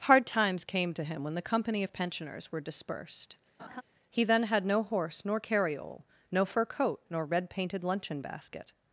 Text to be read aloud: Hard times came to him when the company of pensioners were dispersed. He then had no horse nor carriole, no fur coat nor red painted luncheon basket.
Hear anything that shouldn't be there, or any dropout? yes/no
yes